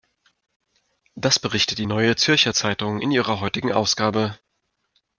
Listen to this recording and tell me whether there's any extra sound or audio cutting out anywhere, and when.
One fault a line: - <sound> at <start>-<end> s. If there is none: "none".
none